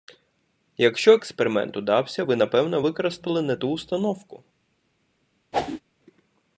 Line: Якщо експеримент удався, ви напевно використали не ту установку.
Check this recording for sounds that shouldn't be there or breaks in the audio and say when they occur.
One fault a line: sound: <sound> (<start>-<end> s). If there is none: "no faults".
sound: whoosh (5.5-5.8 s)